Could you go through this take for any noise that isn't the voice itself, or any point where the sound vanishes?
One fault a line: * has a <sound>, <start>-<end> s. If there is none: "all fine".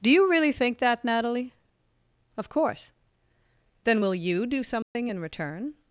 * has a dropout, 4.8-5.0 s